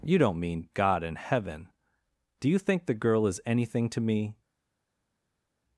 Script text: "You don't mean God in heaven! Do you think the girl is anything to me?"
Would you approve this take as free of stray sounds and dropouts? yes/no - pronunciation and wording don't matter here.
yes